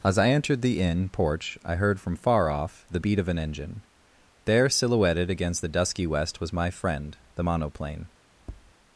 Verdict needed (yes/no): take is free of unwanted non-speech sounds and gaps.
no